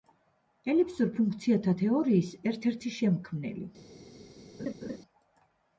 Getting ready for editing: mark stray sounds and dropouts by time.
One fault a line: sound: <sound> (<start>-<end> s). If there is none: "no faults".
sound: laugh (4.6-5.0 s)